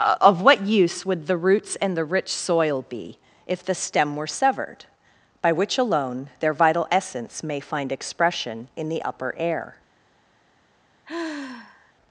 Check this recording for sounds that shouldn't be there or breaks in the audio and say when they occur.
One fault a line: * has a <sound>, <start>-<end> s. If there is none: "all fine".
* has a sigh, 11.0-11.9 s